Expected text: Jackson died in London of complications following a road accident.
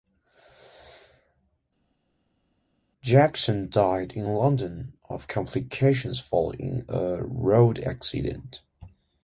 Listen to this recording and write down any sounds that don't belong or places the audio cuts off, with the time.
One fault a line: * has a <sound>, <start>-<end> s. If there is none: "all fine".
all fine